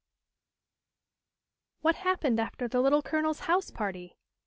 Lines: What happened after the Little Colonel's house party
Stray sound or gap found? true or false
false